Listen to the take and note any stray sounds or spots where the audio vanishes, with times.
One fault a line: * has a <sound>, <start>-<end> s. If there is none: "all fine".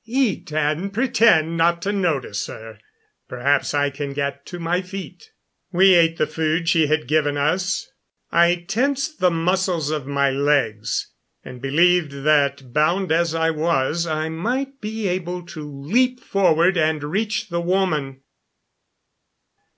all fine